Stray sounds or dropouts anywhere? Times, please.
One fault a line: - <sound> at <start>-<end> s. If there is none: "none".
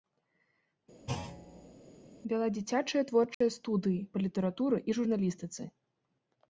- thud at 1.1-1.7 s
- dropout at 3.3-3.4 s